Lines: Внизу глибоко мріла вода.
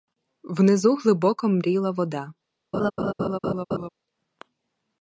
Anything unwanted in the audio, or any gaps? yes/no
yes